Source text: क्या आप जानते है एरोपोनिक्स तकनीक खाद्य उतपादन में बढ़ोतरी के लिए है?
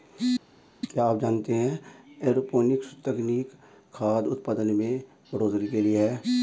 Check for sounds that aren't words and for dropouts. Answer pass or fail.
pass